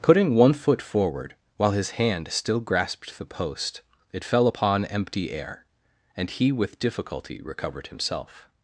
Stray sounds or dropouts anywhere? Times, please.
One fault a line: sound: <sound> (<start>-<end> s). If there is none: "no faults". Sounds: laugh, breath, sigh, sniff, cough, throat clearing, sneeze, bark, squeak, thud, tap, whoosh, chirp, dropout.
no faults